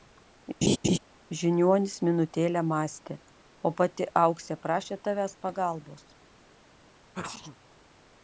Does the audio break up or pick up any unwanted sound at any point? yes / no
yes